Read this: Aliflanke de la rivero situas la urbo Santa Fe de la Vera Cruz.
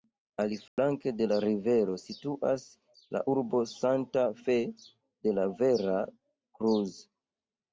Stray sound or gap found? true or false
true